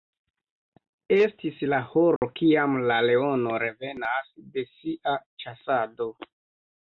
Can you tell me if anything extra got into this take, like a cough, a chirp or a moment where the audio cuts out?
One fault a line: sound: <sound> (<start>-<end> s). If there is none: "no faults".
sound: dropout (2.2-2.2 s)